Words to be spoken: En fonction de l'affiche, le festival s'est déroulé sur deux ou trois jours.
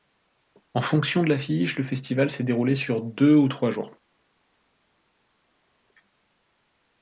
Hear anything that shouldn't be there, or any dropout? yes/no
no